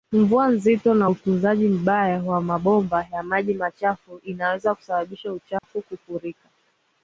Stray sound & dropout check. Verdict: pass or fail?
fail